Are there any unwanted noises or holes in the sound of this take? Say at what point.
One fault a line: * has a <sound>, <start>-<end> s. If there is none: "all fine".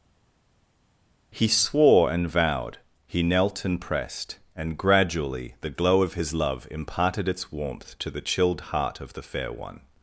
all fine